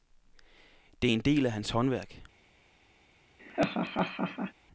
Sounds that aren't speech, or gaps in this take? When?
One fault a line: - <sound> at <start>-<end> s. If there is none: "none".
- laugh at 3.4-4.5 s